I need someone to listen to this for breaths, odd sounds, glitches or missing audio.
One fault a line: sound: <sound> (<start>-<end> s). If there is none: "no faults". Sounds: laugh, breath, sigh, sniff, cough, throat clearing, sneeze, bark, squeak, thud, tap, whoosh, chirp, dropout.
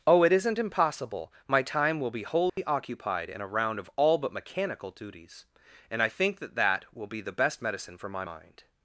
sound: dropout (2.5-2.6 s)